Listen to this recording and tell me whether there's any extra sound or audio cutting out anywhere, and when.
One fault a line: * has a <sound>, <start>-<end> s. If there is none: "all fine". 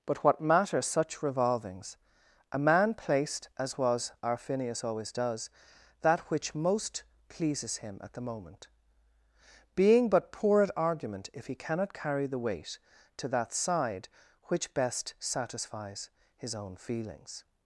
all fine